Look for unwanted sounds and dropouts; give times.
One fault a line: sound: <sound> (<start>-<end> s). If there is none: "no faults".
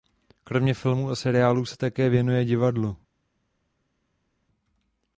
no faults